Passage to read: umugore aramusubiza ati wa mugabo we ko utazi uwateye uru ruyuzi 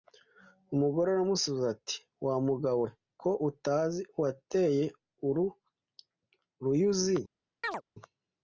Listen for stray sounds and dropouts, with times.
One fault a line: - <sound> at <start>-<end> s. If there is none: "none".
- chirp at 7.6-7.8 s